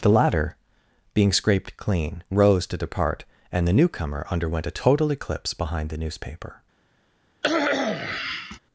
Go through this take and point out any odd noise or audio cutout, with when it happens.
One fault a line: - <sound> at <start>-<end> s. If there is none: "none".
- cough at 7.4-8.6 s